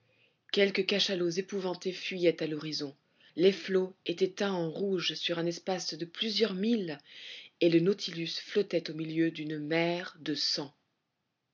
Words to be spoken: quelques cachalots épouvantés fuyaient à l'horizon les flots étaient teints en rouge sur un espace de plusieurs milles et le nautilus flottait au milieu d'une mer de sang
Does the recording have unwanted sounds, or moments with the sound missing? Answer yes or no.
no